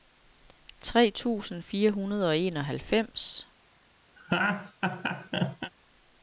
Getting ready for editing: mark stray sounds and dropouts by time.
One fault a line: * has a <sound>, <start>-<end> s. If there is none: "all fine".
* has a laugh, 4.2-5.7 s